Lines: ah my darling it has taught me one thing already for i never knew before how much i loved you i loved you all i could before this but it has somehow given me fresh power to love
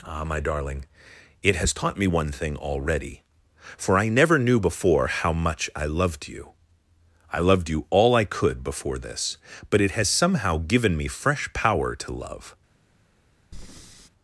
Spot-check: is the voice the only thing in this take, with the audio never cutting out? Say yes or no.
no